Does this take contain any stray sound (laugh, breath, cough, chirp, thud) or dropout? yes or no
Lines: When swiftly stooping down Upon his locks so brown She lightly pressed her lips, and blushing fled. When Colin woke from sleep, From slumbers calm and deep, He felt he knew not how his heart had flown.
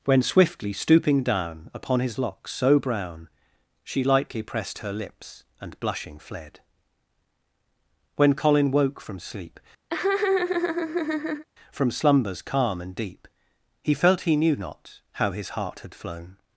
yes